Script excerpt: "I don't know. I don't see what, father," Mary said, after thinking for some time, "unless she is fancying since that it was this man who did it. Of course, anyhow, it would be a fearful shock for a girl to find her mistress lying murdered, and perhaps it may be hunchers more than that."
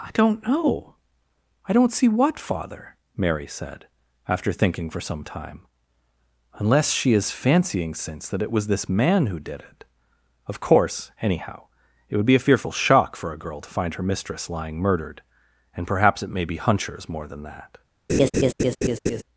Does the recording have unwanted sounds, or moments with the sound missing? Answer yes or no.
yes